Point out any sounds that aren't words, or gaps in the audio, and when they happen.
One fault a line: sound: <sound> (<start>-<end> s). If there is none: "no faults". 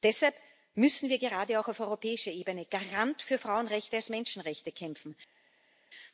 no faults